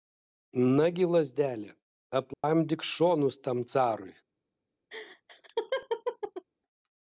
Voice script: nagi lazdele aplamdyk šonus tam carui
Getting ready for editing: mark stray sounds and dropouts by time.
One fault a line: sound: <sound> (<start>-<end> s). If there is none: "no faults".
sound: dropout (2.3-2.4 s)
sound: laugh (4.9-6.5 s)